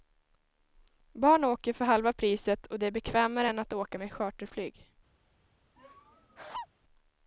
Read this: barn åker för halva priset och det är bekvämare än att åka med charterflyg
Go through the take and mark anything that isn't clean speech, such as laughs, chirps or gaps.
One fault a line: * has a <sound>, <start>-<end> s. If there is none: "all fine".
* has a laugh, 5.8-6.7 s